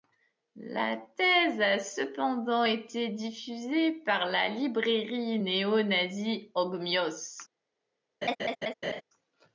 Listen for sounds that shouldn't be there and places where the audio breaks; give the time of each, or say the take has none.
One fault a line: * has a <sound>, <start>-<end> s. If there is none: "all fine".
* has a laugh, 8.2-9.0 s